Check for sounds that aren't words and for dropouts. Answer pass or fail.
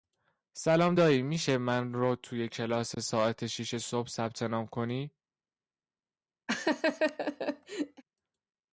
fail